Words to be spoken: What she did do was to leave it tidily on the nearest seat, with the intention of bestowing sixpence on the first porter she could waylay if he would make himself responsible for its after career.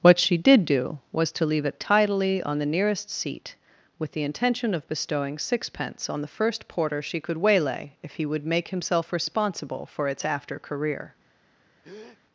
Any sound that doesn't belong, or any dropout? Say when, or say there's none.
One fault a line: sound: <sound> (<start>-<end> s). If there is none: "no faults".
sound: breath (11.8-12.2 s)